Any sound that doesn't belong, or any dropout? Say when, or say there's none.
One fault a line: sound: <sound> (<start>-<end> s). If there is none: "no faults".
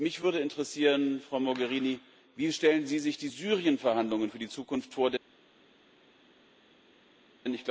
no faults